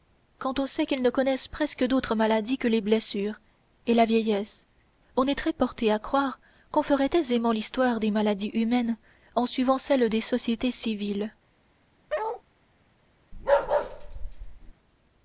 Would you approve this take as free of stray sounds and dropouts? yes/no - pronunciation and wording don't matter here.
no